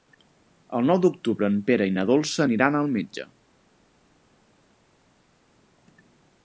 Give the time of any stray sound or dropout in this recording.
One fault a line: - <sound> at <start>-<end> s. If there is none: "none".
none